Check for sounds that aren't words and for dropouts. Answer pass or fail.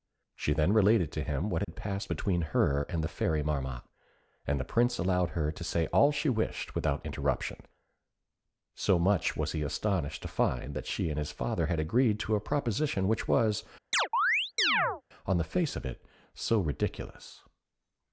fail